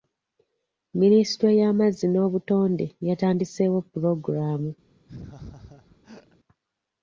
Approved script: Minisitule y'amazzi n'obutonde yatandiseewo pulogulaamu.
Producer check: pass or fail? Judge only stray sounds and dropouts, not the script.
fail